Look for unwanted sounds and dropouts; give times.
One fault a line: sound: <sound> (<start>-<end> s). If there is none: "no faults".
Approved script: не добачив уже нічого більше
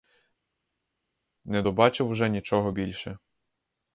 no faults